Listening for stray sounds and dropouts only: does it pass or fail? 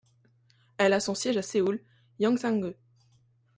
pass